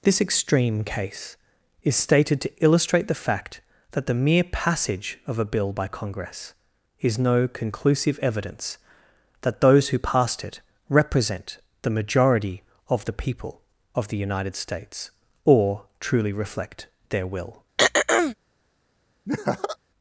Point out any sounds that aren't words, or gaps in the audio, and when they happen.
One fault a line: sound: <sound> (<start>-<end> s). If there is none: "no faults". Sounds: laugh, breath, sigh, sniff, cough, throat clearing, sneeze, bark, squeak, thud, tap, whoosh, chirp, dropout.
sound: throat clearing (17.8-18.3 s)
sound: laugh (19.3-19.8 s)